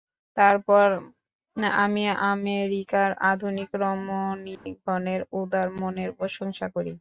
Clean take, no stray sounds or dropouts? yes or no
no